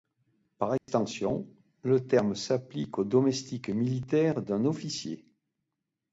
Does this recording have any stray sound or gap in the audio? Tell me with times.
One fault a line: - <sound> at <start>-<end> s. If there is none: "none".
- dropout at 0.8-0.9 s